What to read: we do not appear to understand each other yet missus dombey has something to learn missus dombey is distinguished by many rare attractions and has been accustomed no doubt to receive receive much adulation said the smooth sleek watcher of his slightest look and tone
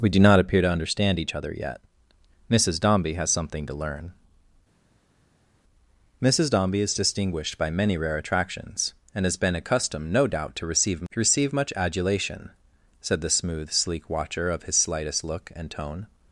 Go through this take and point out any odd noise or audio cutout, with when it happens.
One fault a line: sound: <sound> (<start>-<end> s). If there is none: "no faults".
no faults